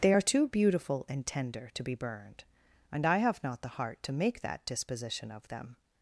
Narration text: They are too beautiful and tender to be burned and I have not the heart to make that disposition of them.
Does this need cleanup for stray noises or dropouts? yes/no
no